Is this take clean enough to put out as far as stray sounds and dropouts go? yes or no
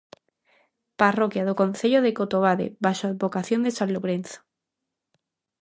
yes